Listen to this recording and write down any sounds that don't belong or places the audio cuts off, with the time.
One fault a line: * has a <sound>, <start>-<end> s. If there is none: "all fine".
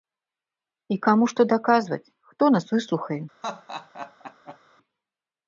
* has a laugh, 3.4-4.6 s